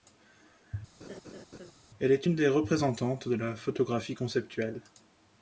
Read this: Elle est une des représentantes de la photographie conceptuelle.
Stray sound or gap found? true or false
true